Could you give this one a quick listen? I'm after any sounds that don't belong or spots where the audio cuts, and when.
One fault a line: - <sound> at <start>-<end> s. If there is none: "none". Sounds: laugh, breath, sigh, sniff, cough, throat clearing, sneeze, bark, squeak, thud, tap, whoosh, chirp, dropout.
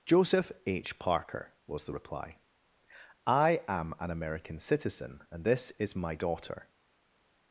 none